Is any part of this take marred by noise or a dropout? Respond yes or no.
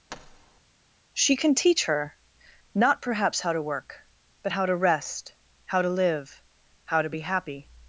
yes